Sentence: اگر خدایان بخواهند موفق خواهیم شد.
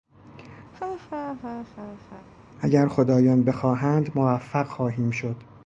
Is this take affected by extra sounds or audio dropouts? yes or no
yes